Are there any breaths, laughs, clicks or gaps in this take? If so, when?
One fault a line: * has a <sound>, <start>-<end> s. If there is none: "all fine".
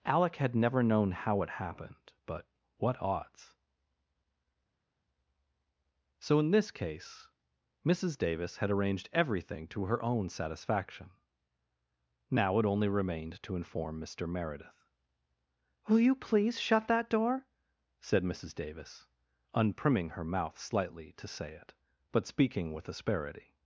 all fine